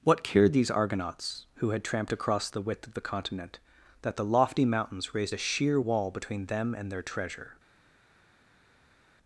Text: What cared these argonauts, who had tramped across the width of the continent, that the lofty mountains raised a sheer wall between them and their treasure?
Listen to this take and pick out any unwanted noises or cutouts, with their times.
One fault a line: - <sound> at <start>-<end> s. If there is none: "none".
none